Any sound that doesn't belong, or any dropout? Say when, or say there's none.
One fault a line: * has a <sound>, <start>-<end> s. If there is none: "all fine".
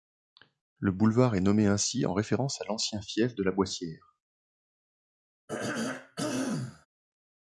* has a throat clearing, 5.5-6.9 s